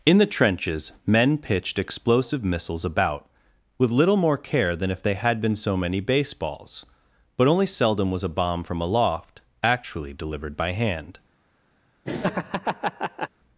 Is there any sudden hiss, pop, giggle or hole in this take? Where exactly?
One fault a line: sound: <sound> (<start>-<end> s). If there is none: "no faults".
sound: laugh (12.0-13.3 s)